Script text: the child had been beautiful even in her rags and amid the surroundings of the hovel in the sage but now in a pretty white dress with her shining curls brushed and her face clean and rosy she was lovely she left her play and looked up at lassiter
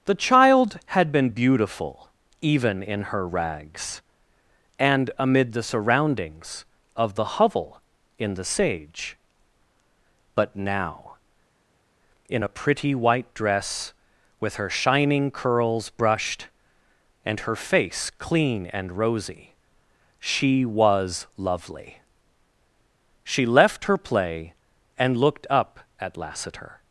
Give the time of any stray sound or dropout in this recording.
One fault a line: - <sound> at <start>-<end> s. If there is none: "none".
none